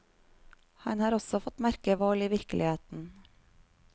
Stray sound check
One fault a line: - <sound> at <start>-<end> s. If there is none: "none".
none